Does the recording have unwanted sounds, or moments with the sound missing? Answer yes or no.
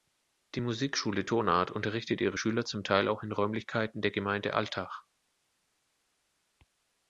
no